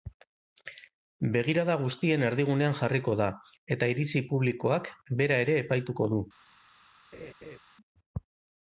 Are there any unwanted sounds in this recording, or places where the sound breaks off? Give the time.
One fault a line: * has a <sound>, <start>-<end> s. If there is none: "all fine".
* has a laugh, 7.1-7.6 s